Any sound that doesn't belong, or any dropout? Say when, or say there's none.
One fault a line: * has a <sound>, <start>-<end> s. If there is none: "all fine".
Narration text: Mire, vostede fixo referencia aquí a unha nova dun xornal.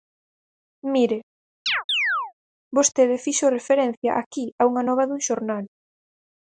* has a chirp, 1.7-2.3 s